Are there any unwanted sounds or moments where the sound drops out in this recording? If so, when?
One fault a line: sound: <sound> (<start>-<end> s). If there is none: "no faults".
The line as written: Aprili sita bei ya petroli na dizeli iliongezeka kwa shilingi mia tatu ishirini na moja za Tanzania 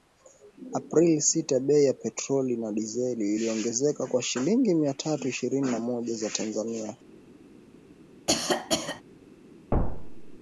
sound: cough (8.3-9.0 s)
sound: thud (9.7-10.4 s)